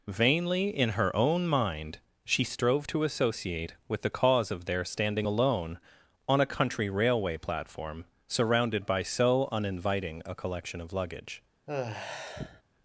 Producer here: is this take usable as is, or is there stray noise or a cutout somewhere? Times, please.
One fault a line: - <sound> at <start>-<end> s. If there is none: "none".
- sigh at 11.7-12.6 s